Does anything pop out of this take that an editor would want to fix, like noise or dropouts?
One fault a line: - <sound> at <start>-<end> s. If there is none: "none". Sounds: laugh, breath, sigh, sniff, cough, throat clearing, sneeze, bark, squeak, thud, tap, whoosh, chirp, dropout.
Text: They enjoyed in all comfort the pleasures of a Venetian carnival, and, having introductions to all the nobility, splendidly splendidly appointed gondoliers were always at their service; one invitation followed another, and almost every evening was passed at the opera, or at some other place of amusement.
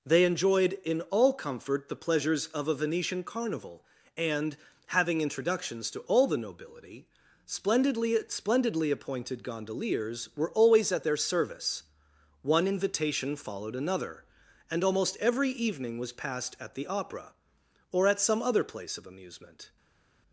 none